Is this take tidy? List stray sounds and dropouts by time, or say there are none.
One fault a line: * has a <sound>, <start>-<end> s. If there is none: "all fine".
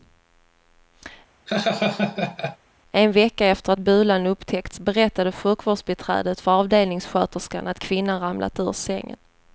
* has a laugh, 1.5-2.6 s